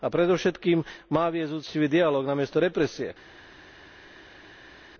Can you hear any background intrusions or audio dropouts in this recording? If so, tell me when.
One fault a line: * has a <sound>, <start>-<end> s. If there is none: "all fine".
all fine